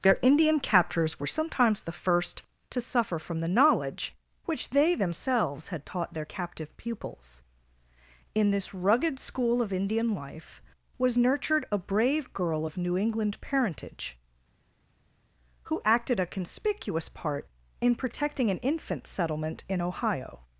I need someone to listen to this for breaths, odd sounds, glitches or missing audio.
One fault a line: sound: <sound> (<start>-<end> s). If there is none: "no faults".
no faults